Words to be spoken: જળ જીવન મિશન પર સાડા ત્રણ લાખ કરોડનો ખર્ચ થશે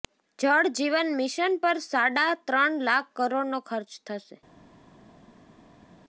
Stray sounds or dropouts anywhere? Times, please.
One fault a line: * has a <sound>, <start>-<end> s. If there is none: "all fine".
all fine